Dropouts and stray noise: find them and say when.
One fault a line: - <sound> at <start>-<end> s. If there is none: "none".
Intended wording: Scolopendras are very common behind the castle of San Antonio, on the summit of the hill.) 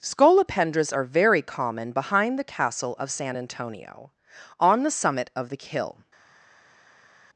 none